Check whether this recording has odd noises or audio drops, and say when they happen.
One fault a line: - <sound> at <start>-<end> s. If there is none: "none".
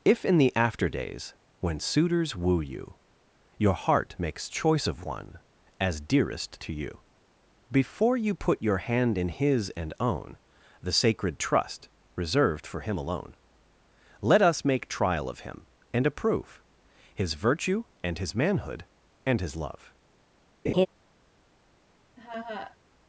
- laugh at 20.6-20.9 s
- laugh at 22.2-22.8 s